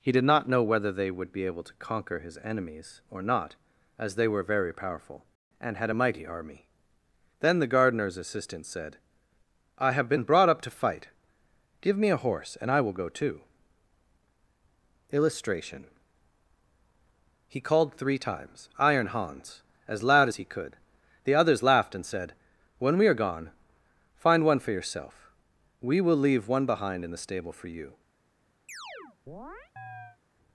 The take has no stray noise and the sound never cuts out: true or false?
false